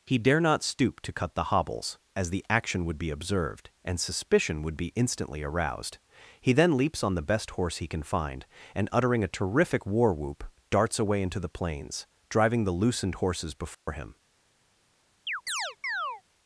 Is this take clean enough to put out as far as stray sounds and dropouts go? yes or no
no